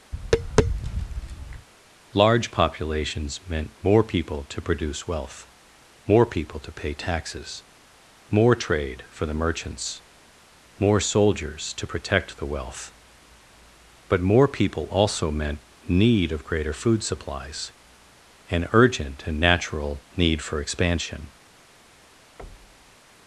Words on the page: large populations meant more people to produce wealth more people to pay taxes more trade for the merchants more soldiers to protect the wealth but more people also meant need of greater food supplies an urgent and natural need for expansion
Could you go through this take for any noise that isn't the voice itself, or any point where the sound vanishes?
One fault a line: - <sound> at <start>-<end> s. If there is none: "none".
- tap at 0.1-1.7 s
- thud at 22.4-23.0 s